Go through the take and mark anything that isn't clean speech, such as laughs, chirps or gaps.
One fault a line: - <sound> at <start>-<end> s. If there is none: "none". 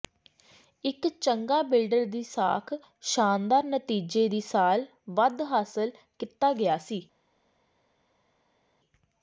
none